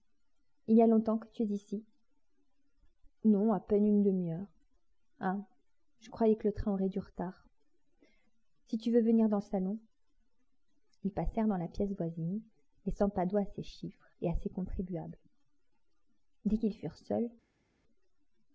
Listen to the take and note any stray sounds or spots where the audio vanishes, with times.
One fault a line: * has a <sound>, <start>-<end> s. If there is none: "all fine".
all fine